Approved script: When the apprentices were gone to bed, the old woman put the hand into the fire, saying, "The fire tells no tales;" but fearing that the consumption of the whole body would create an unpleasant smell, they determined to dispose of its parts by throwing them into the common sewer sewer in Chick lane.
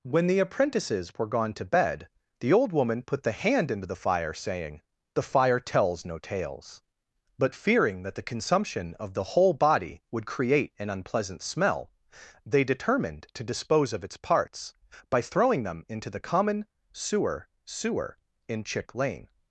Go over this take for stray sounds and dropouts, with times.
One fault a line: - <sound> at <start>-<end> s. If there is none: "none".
none